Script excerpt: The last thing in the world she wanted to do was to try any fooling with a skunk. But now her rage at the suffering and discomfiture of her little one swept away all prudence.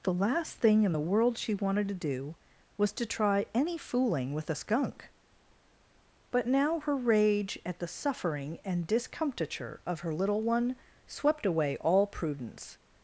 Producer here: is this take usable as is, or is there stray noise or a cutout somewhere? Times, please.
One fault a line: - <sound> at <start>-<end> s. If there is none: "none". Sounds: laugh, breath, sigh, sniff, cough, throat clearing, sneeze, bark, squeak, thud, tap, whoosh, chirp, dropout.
none